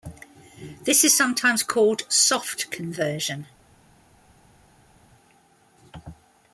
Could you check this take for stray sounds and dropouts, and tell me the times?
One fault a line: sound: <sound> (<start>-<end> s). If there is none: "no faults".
no faults